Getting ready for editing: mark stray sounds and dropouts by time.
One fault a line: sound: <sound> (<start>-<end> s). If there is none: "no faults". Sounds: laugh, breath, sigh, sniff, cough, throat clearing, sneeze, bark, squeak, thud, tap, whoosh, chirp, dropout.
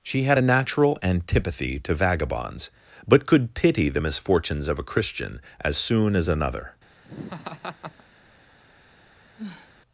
sound: laugh (7.0-8.0 s)
sound: sniff (9.4-9.7 s)